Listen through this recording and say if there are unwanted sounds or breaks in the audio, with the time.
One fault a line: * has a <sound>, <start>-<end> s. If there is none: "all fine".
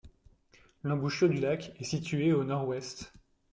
all fine